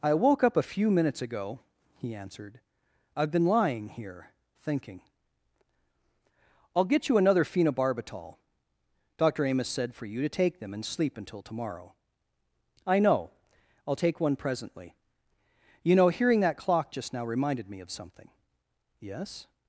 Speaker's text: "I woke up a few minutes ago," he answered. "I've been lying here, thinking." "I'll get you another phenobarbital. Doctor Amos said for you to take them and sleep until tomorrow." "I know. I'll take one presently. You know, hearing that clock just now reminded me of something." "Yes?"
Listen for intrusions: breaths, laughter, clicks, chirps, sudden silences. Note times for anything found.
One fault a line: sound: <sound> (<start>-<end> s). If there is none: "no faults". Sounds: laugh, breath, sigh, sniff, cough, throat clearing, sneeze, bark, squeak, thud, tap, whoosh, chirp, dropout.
no faults